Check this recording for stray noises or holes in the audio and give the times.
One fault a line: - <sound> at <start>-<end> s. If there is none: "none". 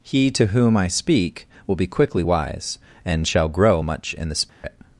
- dropout at 4.5-4.6 s